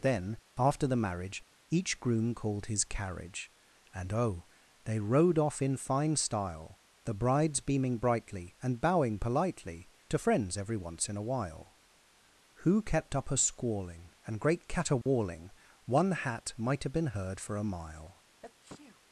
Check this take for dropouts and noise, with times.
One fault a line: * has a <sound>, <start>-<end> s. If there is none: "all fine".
* has a dropout, 15.0-15.1 s
* has a sneeze, 18.4-19.0 s